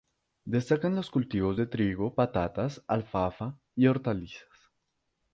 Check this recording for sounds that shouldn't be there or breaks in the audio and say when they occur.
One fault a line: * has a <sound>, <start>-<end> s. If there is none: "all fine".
all fine